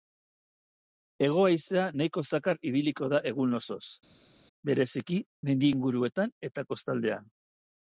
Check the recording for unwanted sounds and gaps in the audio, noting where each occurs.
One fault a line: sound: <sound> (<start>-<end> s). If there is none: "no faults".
no faults